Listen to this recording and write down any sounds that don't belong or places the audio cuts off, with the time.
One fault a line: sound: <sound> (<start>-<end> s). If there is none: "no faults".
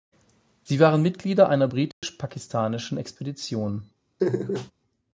sound: dropout (1.9-2.0 s)
sound: laugh (4.2-4.7 s)